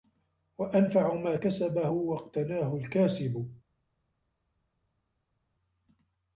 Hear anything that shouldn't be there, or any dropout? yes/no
no